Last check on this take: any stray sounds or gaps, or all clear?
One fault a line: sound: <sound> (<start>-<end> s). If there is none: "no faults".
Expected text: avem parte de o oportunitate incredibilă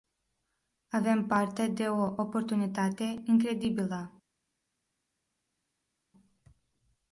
no faults